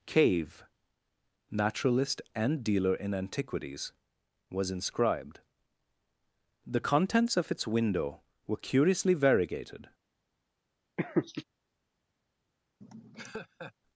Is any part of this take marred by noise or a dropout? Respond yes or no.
yes